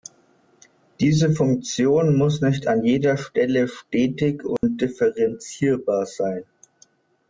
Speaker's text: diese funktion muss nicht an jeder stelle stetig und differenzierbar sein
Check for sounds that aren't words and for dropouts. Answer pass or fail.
fail